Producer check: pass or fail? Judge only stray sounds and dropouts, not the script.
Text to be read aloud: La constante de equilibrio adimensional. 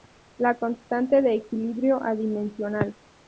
pass